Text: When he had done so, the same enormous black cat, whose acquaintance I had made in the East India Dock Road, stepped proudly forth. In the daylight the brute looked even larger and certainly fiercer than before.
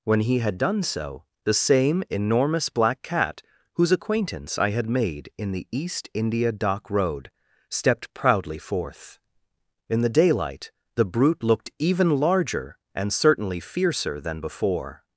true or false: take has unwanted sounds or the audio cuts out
false